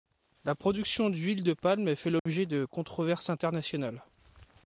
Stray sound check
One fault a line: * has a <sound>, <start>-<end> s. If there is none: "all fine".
* has a dropout, 2.2-2.3 s